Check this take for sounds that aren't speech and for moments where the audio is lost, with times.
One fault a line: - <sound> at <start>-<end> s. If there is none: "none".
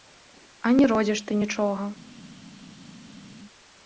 none